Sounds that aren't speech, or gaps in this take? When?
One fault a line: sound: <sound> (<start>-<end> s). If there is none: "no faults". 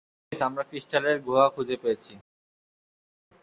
no faults